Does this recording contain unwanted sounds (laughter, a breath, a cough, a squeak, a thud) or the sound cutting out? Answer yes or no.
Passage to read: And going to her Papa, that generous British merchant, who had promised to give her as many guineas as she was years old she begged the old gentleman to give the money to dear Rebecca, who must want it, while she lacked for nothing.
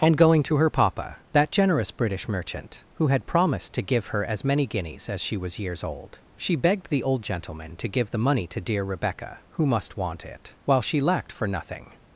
no